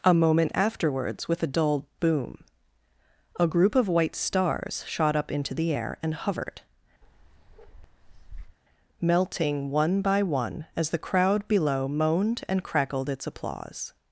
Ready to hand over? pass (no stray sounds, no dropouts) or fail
fail